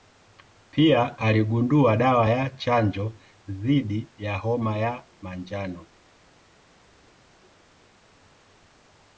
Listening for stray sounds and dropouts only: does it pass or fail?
pass